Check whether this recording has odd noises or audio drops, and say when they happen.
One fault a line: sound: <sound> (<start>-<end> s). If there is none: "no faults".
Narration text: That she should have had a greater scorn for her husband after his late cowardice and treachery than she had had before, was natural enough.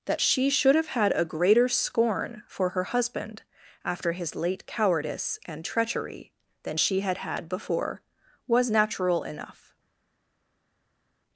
no faults